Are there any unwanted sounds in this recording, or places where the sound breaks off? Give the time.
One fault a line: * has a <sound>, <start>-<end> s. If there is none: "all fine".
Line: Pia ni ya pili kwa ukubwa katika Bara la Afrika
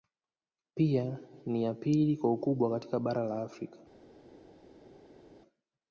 all fine